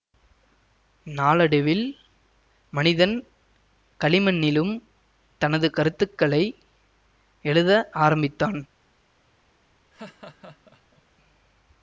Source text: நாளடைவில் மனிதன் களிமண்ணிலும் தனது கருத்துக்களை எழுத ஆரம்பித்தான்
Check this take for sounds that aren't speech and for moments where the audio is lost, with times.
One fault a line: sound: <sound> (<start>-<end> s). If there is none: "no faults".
sound: laugh (9.9-11.0 s)